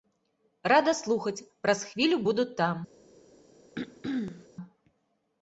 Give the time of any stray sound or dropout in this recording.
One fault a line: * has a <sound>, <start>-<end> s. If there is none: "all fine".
* has a throat clearing, 3.7-4.5 s